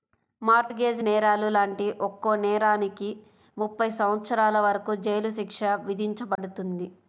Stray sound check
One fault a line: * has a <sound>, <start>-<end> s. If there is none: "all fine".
* has a dropout, 6.4-6.4 s